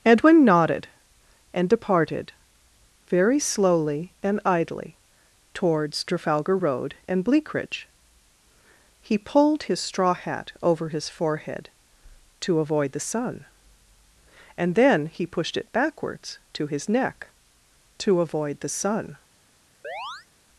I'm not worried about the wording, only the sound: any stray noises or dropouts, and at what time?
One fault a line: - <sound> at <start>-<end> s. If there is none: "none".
- chirp at 19.8-20.3 s